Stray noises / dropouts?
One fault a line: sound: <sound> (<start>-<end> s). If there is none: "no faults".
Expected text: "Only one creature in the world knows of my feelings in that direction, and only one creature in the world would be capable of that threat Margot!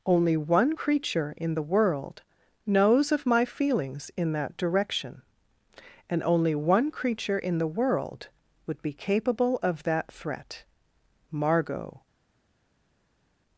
no faults